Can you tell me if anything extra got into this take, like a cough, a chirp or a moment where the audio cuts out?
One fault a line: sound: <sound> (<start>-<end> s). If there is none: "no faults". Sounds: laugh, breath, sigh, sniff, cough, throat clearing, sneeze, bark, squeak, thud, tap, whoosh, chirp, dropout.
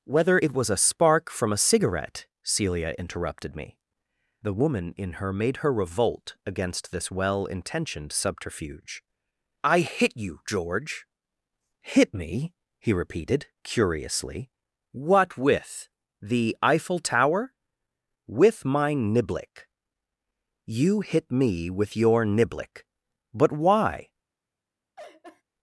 sound: laugh (25.0-25.4 s)